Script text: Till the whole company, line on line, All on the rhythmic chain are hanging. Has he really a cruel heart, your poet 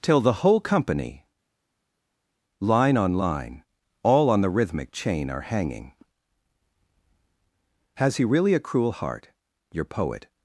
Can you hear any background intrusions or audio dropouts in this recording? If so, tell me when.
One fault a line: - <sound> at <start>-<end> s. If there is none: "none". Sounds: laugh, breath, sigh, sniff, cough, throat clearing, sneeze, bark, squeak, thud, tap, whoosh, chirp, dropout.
none